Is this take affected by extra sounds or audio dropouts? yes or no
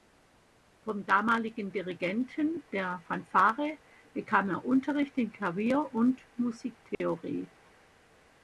yes